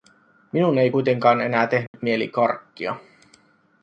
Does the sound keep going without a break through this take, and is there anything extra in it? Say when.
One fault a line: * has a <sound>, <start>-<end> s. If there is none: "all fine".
* has a dropout, 1.9-1.9 s